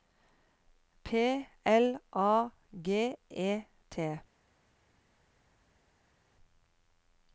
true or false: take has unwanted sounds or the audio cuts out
false